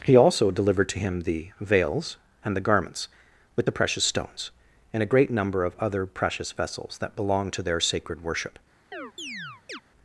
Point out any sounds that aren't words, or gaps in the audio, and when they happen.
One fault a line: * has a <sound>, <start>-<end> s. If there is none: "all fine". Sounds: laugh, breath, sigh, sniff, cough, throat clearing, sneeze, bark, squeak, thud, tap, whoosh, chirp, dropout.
* has a chirp, 8.9-9.8 s